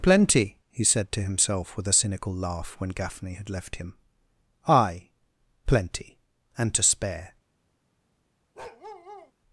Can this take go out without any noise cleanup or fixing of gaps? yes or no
no